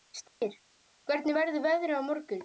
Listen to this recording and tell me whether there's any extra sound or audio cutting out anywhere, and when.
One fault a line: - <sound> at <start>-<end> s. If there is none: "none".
- dropout at 0.3-0.4 s